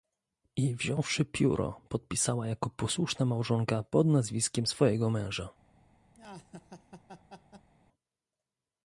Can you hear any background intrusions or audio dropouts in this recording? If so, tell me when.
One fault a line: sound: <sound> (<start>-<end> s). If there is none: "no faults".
sound: laugh (6.1-7.7 s)